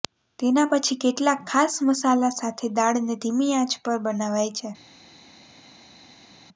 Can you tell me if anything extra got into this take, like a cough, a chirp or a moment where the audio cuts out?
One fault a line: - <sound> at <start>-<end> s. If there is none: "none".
none